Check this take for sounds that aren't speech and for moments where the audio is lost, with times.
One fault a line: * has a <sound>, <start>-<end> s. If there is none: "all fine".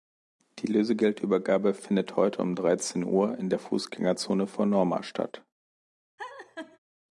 * has a laugh, 6.2-6.8 s